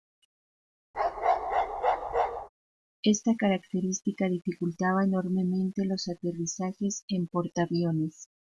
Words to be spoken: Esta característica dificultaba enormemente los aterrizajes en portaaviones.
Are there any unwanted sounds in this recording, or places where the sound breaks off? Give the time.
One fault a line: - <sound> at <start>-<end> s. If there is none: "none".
- bark at 0.9-2.5 s